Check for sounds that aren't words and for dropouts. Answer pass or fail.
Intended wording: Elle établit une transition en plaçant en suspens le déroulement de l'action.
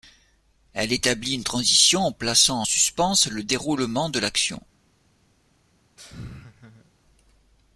fail